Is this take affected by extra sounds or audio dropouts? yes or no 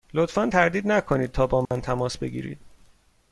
yes